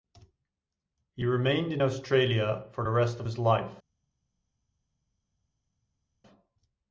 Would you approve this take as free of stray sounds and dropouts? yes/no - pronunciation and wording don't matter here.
yes